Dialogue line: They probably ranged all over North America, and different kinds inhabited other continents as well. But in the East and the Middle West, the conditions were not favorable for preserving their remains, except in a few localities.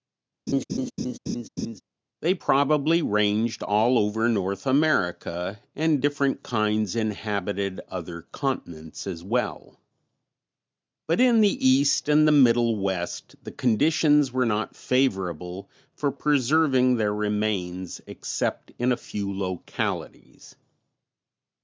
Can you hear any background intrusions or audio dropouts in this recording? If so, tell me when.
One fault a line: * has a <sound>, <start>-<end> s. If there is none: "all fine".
* has a laugh, 0.5-1.8 s